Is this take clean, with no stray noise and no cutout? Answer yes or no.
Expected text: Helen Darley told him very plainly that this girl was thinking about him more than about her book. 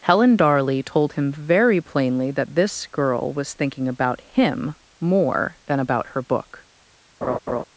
no